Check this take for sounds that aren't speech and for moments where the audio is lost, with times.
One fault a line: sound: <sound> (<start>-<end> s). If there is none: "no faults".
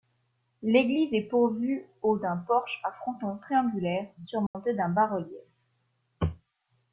sound: dropout (4.5-4.5 s)